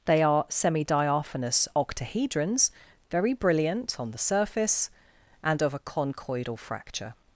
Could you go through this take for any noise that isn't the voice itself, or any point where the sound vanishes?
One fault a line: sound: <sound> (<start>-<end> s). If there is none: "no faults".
no faults